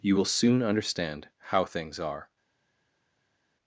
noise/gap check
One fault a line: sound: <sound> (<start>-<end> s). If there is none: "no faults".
no faults